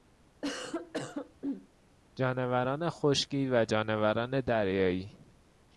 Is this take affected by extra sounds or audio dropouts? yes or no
yes